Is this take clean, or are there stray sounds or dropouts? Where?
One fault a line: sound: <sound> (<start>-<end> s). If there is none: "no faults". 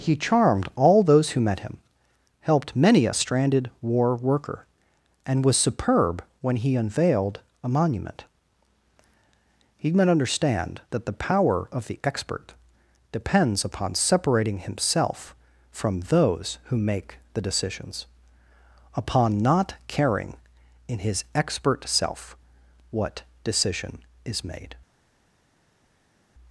no faults